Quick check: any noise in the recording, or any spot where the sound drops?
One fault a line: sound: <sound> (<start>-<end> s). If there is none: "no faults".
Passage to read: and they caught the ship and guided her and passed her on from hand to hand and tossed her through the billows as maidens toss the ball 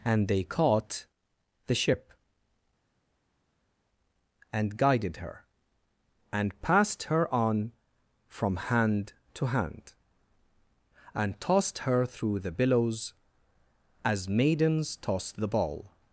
no faults